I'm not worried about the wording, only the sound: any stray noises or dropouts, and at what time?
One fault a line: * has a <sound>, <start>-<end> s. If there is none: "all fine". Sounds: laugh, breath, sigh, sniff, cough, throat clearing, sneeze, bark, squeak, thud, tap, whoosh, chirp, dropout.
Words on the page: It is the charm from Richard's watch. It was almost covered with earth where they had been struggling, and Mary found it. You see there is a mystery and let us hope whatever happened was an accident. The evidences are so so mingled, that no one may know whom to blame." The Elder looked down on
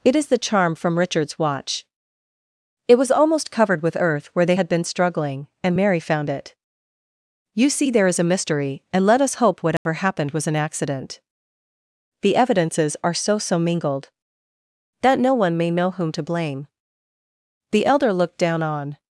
* has a dropout, 9.8-9.9 s